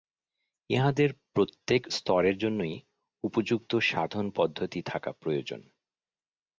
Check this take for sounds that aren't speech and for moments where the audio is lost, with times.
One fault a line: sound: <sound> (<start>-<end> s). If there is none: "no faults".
no faults